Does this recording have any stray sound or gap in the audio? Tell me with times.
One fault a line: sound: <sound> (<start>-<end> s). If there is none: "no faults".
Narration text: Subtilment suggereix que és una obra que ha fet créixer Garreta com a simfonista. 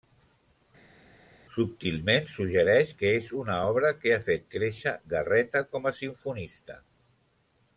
no faults